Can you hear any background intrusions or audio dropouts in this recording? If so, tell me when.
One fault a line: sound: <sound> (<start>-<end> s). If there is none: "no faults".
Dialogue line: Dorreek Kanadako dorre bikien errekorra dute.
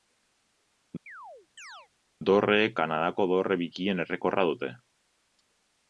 sound: chirp (1.1-1.9 s)